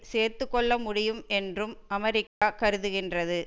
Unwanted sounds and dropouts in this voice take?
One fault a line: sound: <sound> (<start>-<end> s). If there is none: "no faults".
sound: dropout (2.3-2.4 s)